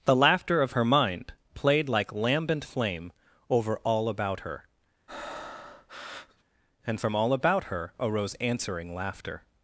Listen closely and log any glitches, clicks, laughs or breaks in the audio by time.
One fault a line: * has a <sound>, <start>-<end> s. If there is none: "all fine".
* has a breath, 5.1-6.4 s